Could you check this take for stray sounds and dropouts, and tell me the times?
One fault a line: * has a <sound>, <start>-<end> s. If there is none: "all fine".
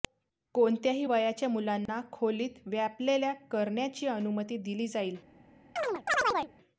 * has a dropout, 1.9-1.9 s
* has a chirp, 5.8-6.5 s